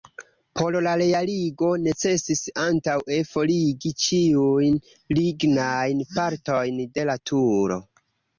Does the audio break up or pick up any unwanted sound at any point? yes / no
no